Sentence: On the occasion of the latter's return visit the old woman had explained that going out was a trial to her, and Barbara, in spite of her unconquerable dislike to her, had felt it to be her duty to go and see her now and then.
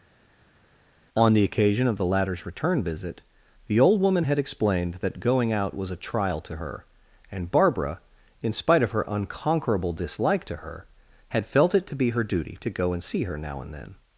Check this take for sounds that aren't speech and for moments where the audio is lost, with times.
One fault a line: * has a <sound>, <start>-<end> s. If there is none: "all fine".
all fine